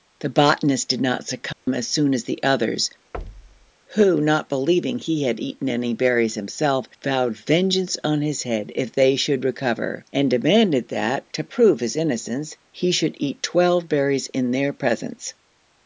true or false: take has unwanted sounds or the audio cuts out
true